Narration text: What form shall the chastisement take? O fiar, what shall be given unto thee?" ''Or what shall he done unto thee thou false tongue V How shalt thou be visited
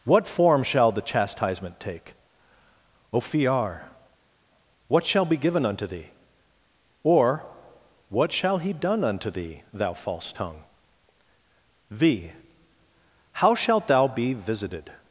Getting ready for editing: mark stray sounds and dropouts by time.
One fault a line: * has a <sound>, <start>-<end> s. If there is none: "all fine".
all fine